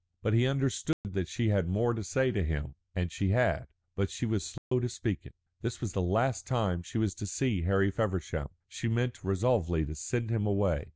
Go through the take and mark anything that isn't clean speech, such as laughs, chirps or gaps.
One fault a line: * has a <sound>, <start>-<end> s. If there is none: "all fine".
* has a dropout, 0.9-1.0 s
* has a dropout, 4.6-4.7 s